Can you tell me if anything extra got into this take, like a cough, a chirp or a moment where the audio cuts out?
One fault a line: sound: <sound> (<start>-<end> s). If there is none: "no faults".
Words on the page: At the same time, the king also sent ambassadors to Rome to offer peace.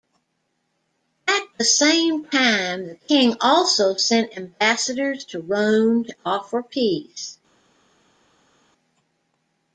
no faults